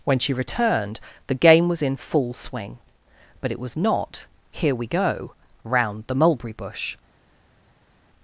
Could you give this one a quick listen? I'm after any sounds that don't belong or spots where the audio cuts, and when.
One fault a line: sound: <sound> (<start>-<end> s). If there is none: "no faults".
no faults